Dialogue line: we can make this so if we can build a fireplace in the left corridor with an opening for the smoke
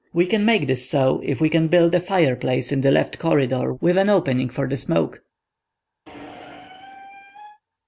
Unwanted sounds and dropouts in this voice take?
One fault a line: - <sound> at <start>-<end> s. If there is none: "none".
- squeak at 6.1-7.6 s